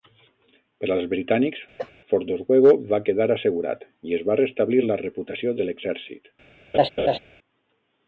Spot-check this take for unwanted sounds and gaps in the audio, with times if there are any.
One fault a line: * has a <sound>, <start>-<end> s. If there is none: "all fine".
* has a cough, 1.8-1.9 s
* has a laugh, 6.7-7.2 s